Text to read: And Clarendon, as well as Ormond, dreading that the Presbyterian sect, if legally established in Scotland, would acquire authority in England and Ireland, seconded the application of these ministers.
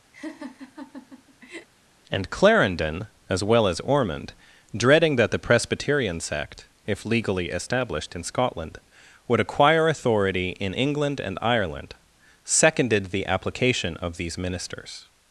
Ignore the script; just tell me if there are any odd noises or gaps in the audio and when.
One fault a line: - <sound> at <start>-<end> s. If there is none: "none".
- laugh at 0.1-1.7 s